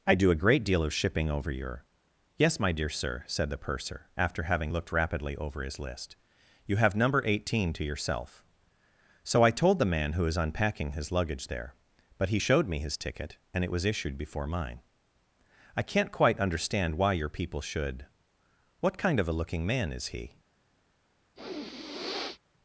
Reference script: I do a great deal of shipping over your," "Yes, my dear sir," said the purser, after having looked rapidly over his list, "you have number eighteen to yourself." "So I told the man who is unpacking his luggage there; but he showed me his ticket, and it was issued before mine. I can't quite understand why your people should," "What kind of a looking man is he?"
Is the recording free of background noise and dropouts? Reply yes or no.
no